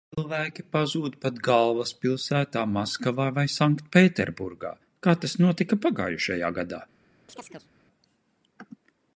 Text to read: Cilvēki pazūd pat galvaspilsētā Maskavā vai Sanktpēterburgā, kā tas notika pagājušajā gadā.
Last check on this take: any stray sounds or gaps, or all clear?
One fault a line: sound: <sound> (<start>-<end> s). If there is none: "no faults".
sound: chirp (7.3-7.7 s)